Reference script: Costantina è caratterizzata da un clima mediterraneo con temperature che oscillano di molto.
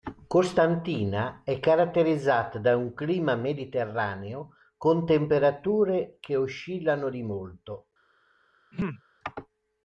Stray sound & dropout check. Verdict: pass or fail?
fail